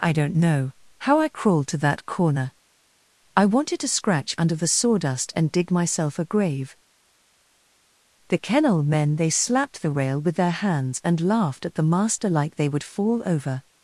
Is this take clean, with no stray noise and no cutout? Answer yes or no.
yes